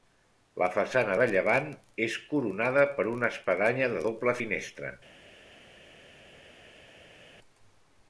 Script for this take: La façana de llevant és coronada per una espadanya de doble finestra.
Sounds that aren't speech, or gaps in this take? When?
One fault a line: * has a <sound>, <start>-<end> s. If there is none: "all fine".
all fine